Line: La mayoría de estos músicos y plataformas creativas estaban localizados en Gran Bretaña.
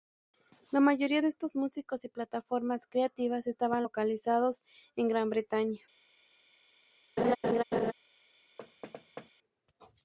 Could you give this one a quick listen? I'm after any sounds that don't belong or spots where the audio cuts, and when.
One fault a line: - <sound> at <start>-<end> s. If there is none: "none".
- laugh at 7.2-7.9 s
- thud at 8.6-9.3 s